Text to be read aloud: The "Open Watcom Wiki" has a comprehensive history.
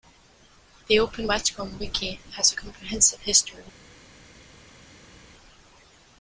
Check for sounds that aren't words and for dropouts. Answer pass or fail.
pass